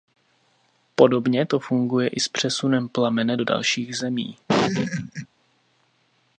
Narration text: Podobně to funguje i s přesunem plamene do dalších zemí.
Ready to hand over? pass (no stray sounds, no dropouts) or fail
fail